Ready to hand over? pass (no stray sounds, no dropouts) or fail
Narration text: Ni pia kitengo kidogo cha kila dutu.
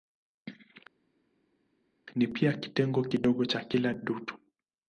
pass